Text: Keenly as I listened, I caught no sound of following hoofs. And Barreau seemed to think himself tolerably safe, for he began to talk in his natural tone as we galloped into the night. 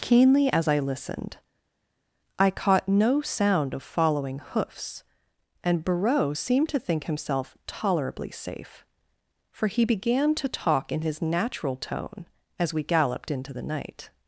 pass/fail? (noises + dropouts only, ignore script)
pass